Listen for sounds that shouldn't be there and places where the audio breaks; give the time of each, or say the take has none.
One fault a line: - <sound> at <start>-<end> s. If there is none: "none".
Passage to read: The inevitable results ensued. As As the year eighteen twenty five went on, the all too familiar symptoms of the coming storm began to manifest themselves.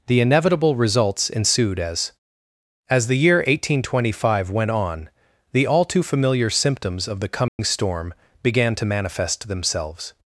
- dropout at 7.5-7.6 s